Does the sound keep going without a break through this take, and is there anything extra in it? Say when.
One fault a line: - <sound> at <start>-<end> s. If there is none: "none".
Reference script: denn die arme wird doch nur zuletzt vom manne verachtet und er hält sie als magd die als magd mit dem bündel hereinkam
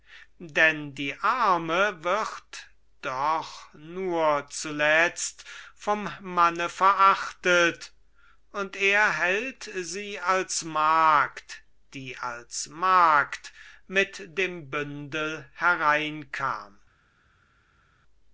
none